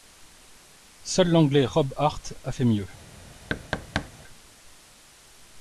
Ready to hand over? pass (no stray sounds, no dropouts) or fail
fail